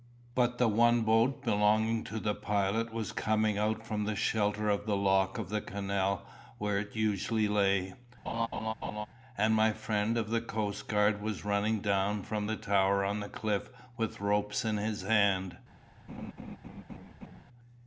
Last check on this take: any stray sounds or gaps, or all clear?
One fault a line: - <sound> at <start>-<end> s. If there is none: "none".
- laugh at 8.3-9.1 s
- laugh at 16.1-17.4 s